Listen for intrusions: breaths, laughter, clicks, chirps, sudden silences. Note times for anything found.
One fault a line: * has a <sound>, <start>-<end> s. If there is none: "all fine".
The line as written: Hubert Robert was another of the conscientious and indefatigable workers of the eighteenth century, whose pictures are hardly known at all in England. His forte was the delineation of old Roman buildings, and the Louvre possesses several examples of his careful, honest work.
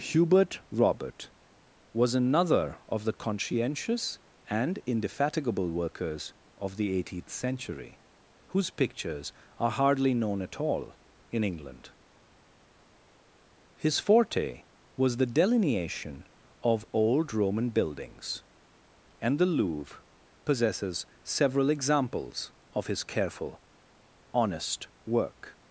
all fine